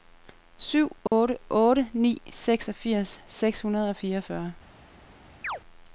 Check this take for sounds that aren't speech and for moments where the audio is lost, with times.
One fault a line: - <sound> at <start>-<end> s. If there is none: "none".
- dropout at 1.1-1.1 s
- chirp at 5.4-5.6 s